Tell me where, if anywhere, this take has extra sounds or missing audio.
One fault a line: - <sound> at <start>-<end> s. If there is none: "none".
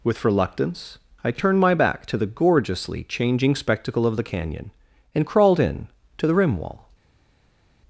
none